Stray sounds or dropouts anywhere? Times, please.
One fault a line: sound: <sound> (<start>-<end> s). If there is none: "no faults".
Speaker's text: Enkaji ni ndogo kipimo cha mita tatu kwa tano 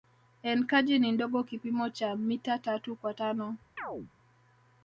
sound: chirp (3.8-4.1 s)